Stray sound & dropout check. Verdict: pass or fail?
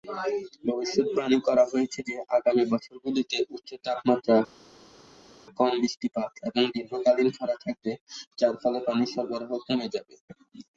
pass